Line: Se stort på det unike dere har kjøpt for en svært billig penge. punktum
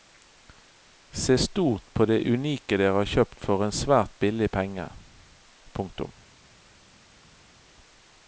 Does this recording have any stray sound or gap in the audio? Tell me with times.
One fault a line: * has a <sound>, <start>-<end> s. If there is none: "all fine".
all fine